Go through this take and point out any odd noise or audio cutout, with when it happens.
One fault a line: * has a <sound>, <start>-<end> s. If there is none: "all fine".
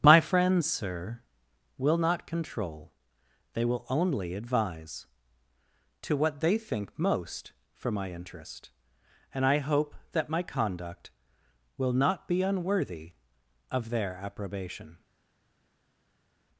all fine